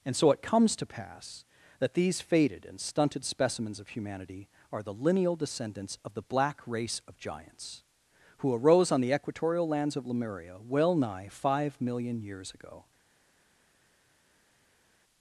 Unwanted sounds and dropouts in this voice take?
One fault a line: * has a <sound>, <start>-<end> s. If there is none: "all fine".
all fine